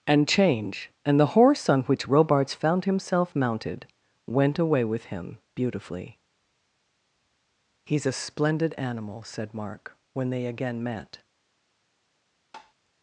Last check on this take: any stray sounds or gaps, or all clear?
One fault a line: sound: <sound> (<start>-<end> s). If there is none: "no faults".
sound: tap (12.5-12.7 s)